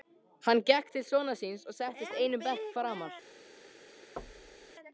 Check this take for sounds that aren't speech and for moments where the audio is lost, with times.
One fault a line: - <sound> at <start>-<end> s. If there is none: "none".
- thud at 4.2-4.7 s